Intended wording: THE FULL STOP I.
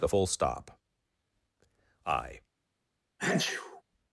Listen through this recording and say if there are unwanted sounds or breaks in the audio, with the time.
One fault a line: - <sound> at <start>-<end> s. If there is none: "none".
- sneeze at 3.2-3.8 s